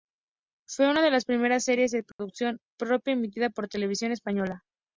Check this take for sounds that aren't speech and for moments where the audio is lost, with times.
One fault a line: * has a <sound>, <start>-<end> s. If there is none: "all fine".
* has a dropout, 2.1-2.2 s